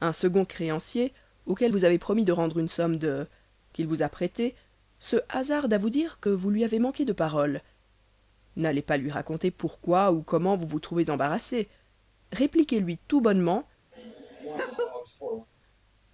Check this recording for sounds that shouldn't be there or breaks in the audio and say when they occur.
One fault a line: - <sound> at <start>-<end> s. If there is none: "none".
- laugh at 13.9-15.5 s